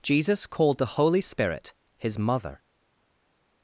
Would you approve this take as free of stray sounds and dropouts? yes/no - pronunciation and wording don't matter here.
yes